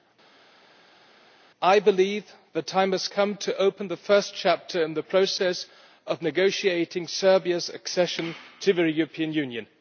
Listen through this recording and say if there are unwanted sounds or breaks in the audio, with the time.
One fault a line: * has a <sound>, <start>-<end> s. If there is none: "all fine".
all fine